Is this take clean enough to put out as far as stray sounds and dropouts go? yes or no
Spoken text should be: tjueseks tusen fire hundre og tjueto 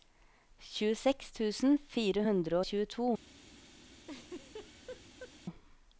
no